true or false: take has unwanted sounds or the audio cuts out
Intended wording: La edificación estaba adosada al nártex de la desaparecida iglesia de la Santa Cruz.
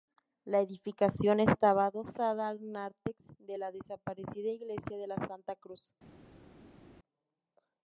false